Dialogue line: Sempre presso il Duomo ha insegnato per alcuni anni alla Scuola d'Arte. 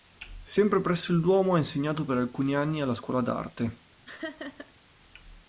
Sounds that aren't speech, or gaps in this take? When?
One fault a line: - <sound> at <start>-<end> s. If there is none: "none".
- laugh at 4.1-4.7 s